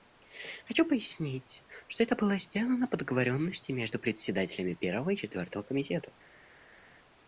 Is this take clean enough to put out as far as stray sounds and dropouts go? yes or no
yes